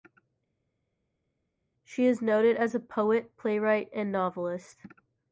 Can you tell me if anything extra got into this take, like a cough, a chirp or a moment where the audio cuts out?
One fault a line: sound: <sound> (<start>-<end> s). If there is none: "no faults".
no faults